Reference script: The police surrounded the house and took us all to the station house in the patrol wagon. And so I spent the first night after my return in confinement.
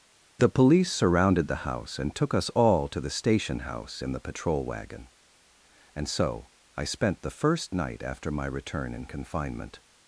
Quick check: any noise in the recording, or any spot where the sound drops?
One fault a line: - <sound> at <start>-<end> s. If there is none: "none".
none